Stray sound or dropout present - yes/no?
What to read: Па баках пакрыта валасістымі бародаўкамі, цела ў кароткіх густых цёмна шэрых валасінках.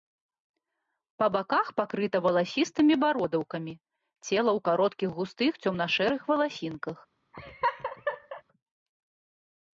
yes